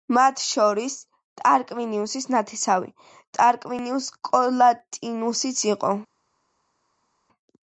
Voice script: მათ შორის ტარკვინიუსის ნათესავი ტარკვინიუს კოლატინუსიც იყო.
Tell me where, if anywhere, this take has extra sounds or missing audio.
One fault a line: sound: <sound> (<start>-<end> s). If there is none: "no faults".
no faults